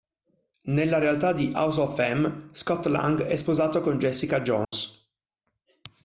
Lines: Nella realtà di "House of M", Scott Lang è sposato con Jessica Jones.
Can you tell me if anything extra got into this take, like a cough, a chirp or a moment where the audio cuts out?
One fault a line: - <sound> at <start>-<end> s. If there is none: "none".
- dropout at 4.6-4.7 s